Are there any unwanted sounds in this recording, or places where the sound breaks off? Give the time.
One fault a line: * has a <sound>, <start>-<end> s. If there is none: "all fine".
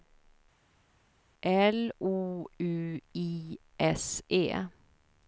all fine